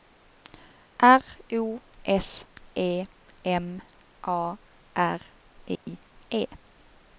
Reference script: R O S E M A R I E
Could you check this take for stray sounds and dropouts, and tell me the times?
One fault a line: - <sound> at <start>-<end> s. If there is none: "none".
- dropout at 5.8-5.9 s